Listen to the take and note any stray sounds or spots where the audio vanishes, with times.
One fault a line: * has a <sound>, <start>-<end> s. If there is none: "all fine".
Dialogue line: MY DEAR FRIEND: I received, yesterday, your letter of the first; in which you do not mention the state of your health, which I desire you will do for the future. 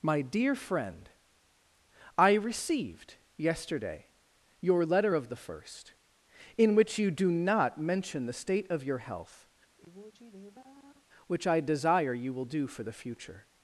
* has a sigh, 9.8-11.1 s